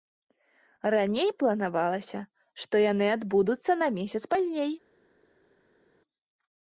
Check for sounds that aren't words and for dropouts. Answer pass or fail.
pass